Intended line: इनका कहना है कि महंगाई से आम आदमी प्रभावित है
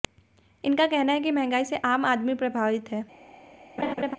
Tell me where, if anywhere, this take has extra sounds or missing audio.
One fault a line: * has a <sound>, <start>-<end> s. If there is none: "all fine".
* has a laugh, 3.8-4.2 s